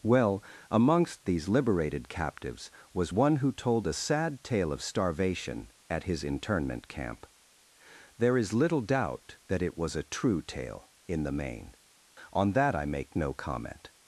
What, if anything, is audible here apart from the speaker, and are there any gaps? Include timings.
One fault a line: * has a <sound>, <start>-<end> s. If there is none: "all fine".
all fine